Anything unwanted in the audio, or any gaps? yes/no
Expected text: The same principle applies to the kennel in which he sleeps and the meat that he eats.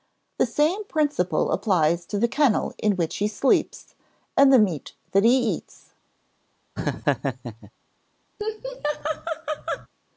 yes